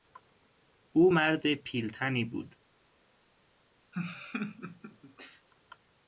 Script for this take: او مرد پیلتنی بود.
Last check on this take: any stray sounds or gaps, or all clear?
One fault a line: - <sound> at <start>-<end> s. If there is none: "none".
- laugh at 3.9-5.5 s